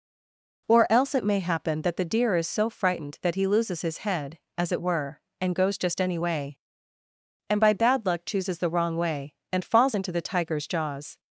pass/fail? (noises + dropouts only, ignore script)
pass